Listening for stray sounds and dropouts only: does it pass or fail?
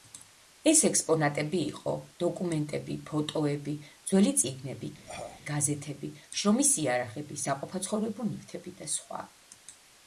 fail